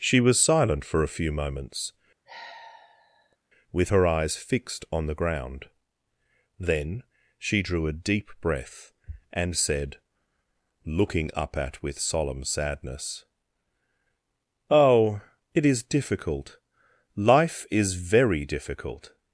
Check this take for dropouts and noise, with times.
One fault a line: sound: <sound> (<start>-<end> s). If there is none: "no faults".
sound: sigh (2.3-3.4 s)